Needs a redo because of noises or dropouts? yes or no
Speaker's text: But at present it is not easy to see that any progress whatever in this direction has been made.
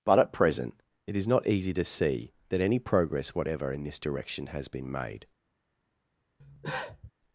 yes